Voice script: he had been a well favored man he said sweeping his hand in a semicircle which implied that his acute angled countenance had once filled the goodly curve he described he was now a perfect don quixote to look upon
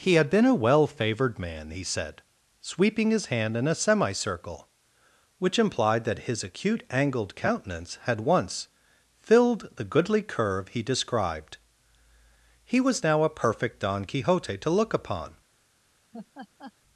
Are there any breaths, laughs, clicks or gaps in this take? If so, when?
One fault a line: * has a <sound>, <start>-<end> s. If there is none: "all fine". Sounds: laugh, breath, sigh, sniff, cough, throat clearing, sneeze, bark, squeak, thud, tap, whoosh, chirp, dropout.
* has a laugh, 16.1-16.7 s